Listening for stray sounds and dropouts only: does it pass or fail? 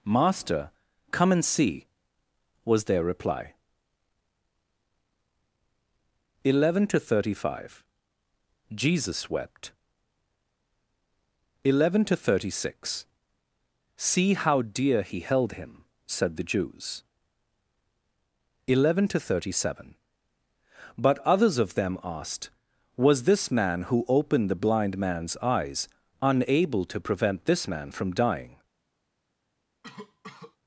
fail